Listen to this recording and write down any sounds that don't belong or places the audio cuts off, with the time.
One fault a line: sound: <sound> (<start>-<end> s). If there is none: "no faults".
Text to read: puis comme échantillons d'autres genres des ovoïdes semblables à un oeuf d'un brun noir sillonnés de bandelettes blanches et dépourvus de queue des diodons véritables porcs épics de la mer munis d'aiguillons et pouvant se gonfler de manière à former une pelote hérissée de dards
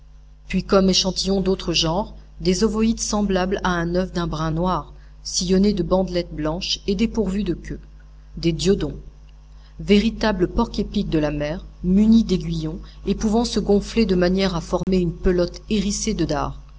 sound: dropout (14.8-14.9 s)